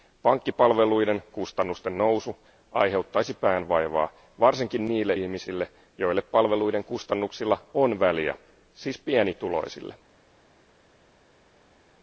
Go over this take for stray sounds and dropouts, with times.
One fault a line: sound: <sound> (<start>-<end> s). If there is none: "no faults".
no faults